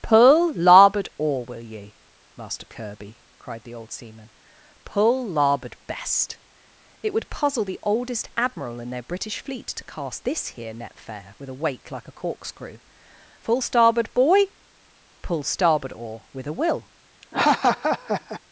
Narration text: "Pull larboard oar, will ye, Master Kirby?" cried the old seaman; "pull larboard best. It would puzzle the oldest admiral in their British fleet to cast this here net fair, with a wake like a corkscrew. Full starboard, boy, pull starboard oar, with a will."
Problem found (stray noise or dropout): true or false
true